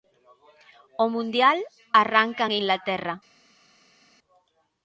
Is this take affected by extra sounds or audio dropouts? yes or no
no